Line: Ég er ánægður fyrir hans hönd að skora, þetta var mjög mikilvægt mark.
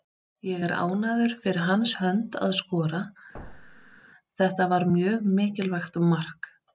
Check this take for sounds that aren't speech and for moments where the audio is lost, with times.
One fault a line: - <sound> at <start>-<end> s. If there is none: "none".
- thud at 3.3-4.0 s